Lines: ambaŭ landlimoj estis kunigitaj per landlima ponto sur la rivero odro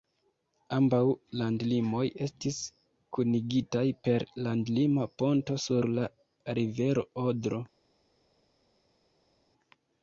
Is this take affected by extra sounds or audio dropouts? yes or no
no